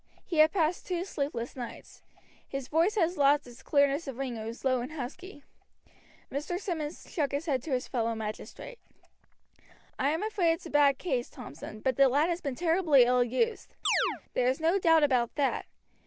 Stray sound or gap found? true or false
true